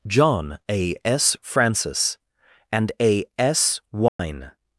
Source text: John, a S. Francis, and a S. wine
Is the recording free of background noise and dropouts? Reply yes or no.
no